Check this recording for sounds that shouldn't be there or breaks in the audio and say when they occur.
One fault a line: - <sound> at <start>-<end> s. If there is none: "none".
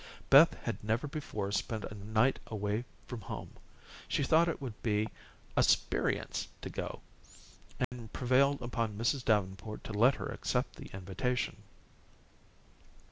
- dropout at 7.8-7.9 s